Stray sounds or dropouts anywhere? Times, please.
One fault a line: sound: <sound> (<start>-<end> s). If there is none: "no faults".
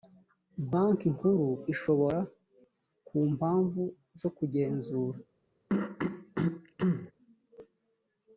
sound: throat clearing (5.7-7.1 s)